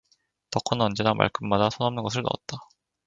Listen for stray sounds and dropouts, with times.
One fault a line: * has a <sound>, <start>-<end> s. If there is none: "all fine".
all fine